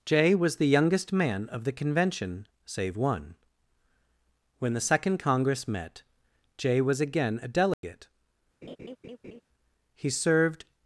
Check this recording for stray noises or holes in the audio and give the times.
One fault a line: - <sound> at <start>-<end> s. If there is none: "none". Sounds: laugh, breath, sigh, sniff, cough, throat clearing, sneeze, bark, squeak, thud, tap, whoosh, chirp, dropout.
- dropout at 7.7-7.8 s
- laugh at 8.6-9.4 s